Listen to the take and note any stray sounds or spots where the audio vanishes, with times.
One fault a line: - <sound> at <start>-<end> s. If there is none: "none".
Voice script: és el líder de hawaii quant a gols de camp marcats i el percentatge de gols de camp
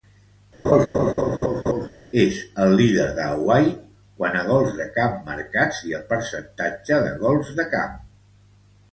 - laugh at 0.6-1.9 s